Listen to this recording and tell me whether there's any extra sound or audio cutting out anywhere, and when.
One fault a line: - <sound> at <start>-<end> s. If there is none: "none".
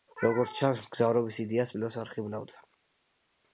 none